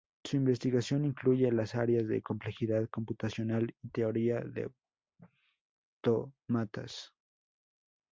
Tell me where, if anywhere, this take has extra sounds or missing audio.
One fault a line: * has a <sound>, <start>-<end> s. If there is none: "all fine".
all fine